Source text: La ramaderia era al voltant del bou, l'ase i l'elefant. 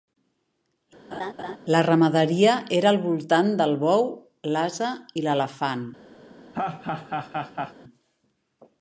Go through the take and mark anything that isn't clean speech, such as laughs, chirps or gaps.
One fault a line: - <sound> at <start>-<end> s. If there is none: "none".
- laugh at 1.1-1.6 s
- laugh at 6.5-7.7 s